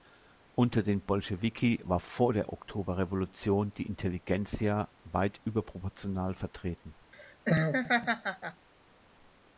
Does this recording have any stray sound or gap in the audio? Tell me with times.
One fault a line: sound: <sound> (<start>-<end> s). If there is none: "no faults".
sound: laugh (7.1-8.7 s)